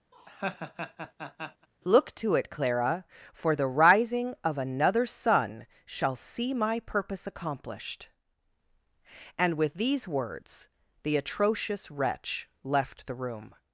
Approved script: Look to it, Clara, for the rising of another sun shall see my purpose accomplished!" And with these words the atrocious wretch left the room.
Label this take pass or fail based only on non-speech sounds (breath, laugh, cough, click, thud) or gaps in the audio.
fail